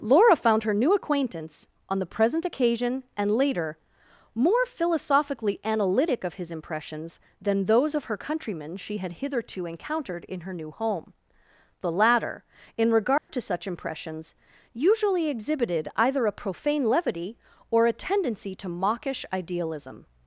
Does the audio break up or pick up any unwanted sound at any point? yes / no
yes